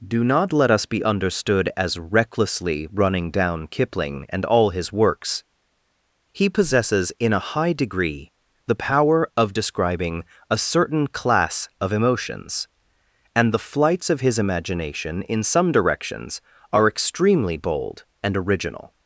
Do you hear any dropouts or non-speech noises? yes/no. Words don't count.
no